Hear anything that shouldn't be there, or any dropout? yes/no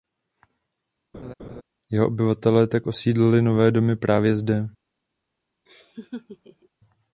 yes